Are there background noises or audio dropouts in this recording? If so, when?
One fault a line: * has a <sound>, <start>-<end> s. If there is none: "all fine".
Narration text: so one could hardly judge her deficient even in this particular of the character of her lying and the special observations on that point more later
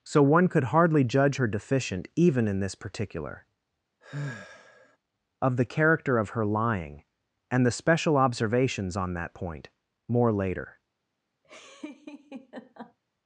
* has a sigh, 4.0-5.0 s
* has a laugh, 11.4-13.0 s